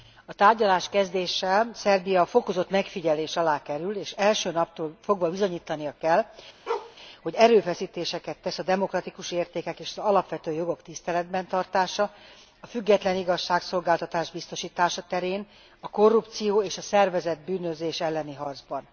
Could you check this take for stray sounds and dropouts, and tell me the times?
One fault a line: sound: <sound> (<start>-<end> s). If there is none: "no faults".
sound: bark (6.7-7.0 s)